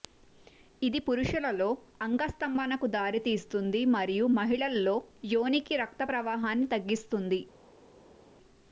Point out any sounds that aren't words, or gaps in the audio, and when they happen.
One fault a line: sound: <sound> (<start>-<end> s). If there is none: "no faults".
no faults